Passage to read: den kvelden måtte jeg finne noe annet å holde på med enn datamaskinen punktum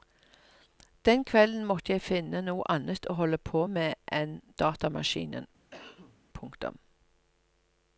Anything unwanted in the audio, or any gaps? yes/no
yes